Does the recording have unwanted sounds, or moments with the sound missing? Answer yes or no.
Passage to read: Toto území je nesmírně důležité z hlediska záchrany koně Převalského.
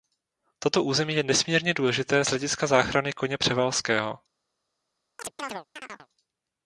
yes